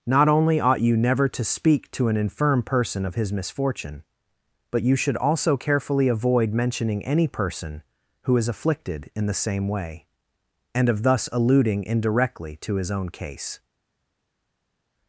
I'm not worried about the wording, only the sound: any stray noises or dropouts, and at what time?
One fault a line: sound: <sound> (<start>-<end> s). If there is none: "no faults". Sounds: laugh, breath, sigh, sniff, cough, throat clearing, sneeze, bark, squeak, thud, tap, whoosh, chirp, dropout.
no faults